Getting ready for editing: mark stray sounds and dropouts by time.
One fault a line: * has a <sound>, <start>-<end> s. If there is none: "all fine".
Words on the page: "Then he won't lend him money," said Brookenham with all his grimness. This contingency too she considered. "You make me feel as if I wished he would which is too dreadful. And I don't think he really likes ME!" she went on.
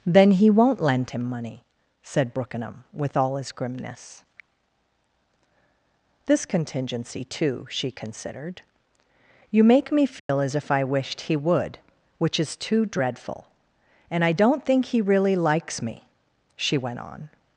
* has a dropout, 10.2-10.3 s